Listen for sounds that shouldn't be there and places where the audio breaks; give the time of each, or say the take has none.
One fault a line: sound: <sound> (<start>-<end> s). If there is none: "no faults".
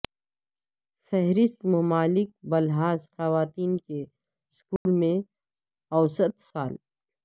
sound: dropout (4.8-4.9 s)